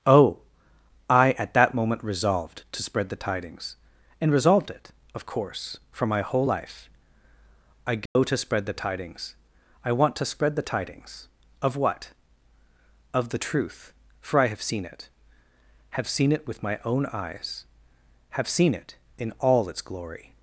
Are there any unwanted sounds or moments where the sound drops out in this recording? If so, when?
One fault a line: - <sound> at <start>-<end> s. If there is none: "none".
- dropout at 8.1-8.2 s